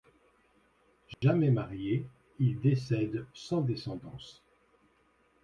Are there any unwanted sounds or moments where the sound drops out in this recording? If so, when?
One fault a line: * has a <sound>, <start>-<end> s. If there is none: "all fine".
* has a dropout, 1.1-1.2 s